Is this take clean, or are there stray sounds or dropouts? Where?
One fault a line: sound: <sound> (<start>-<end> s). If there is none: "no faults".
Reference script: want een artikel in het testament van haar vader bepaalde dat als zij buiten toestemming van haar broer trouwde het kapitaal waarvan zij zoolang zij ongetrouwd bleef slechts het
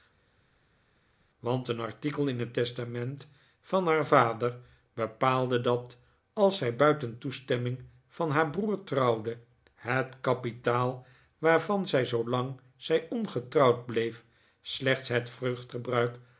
no faults